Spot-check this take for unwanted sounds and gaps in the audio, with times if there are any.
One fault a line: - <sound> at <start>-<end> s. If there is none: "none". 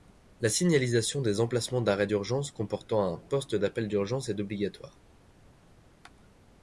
none